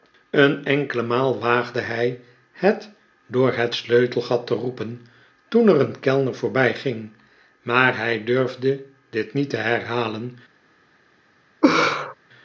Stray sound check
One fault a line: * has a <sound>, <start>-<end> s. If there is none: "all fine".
* has a laugh, 11.6-12.1 s